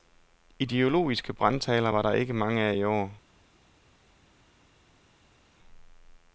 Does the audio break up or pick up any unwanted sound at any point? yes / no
no